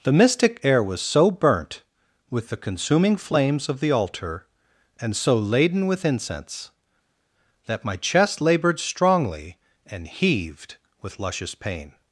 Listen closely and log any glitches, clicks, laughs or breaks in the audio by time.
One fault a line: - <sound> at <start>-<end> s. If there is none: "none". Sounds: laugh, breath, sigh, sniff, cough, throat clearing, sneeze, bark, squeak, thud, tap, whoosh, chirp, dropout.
none